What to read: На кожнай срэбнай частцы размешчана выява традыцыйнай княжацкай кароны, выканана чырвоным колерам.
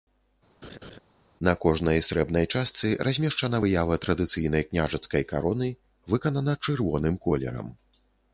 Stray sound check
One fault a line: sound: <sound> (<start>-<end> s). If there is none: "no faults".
sound: laugh (0.6-1.0 s)